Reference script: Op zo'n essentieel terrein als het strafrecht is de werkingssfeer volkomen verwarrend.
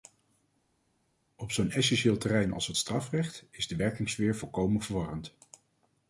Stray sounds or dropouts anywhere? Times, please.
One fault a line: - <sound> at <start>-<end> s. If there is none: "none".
none